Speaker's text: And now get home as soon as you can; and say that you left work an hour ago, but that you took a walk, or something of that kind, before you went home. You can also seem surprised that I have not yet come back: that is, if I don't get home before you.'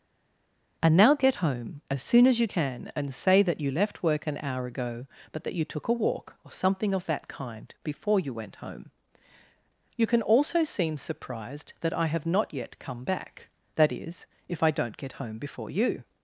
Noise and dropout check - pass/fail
pass